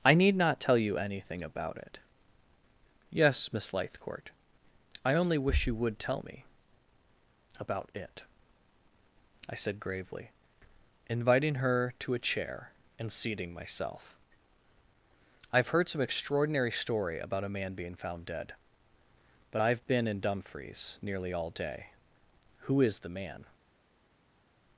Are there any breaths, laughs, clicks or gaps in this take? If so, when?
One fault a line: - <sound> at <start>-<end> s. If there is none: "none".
none